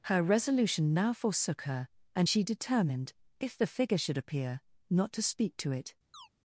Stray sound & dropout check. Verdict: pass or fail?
fail